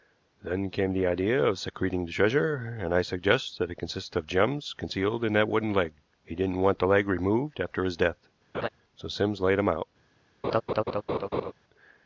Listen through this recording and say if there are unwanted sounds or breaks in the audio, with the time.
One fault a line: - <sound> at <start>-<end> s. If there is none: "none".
- laugh at 8.5-8.7 s
- laugh at 10.4-11.5 s